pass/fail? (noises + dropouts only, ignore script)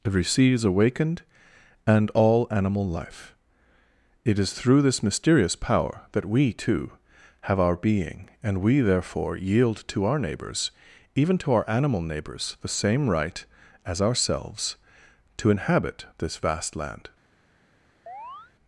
fail